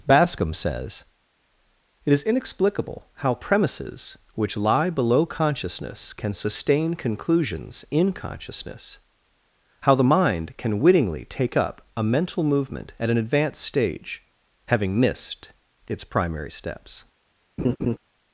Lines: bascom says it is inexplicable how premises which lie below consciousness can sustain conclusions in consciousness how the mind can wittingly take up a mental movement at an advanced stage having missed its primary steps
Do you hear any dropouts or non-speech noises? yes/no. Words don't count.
yes